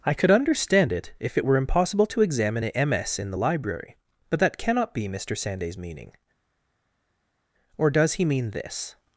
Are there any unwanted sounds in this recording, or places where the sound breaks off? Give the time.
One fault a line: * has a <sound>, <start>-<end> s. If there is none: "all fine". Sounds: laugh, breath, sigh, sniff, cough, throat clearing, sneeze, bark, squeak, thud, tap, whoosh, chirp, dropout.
all fine